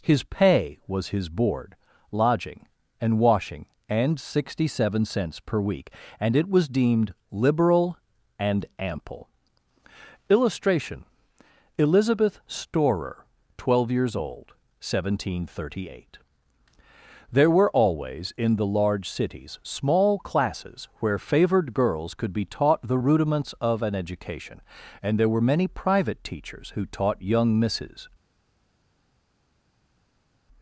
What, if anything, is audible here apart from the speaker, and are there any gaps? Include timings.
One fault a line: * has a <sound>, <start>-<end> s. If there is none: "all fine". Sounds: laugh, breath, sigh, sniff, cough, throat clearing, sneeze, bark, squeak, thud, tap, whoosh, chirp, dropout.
all fine